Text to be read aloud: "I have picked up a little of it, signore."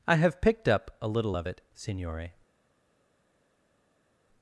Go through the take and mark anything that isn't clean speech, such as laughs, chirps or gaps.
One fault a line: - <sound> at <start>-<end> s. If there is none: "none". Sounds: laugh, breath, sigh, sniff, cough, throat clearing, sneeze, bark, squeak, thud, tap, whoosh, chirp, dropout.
none